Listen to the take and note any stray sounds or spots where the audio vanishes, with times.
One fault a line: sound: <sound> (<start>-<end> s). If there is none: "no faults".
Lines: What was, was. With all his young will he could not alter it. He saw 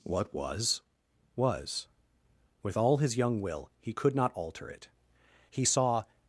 no faults